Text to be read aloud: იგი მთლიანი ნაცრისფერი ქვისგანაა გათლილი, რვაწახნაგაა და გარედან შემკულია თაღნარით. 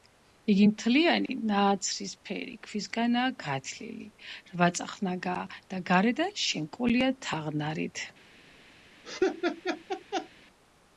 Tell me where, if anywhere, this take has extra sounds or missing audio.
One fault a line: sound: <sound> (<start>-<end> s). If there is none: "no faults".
sound: dropout (1.3-1.3 s)
sound: laugh (9.0-10.3 s)